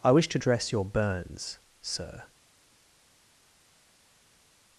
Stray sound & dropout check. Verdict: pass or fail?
pass